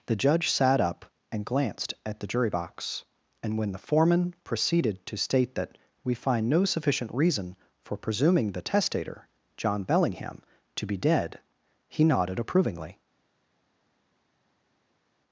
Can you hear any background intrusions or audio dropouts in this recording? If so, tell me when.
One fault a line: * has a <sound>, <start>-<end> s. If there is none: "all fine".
all fine